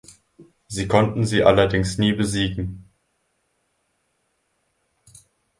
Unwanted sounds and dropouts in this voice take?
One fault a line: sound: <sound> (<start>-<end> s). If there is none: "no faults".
no faults